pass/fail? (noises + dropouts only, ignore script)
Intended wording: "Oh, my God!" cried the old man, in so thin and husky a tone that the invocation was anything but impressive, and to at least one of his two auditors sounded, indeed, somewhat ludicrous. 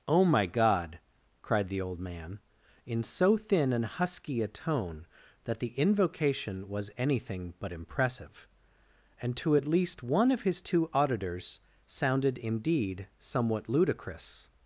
pass